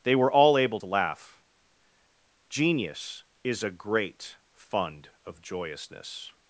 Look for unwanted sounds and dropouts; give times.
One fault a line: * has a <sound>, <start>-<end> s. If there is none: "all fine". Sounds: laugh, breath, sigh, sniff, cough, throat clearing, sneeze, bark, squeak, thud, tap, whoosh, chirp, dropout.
all fine